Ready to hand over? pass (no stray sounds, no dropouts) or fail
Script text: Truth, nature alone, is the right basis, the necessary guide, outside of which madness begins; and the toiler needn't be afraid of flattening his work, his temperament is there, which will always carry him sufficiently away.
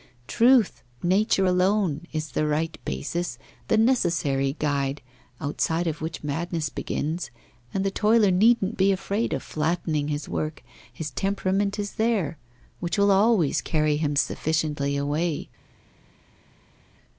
pass